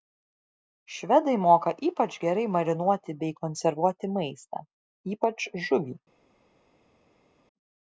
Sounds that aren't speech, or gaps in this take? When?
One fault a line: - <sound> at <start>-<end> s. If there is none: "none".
none